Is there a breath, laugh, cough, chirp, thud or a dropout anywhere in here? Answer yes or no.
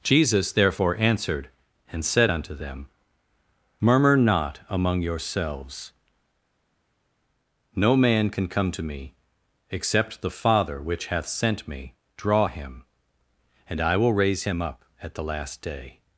no